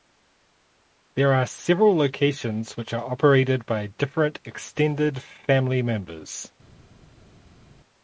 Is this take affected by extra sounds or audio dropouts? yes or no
no